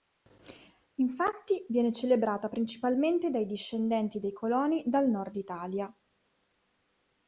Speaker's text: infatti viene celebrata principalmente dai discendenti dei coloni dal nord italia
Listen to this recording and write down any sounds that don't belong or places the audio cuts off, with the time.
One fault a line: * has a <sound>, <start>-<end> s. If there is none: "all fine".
all fine